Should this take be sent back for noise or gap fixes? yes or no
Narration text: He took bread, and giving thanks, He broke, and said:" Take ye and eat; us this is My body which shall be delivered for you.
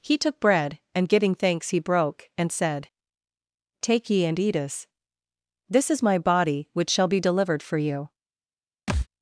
yes